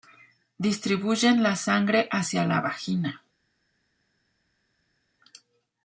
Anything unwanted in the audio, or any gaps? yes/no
no